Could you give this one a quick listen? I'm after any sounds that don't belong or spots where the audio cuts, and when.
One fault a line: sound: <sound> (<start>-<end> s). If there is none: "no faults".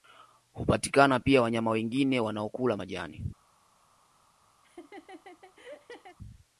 sound: laugh (4.6-6.2 s)